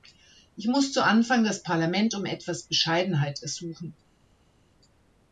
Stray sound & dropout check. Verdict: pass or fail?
pass